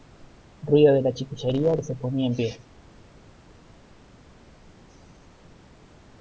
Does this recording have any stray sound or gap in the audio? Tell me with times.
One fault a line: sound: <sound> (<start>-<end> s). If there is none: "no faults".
no faults